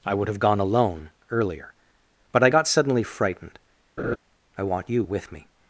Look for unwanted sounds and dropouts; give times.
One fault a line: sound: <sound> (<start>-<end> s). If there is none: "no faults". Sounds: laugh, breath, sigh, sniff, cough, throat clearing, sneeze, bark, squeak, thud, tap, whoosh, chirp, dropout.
sound: laugh (4.0-4.2 s)